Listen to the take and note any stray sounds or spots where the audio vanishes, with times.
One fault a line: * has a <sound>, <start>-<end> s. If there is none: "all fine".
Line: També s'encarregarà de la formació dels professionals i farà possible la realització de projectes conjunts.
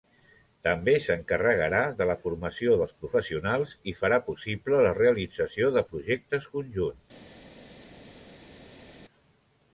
all fine